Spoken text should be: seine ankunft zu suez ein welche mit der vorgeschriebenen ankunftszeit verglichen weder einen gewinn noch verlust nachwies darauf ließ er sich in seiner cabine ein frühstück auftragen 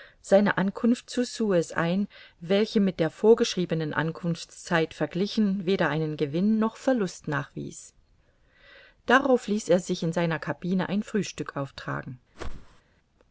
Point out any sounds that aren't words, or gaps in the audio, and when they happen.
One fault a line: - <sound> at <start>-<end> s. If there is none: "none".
- whoosh at 12.3-12.8 s